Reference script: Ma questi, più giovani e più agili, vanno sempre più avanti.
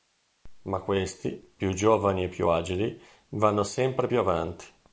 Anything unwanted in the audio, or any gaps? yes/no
no